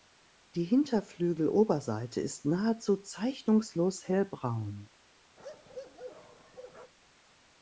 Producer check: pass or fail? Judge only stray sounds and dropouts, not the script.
fail